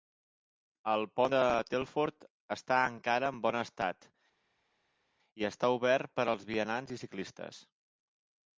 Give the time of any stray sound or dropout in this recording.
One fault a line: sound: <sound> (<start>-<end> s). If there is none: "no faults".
no faults